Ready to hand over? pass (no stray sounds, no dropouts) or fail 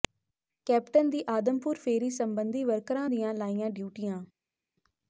pass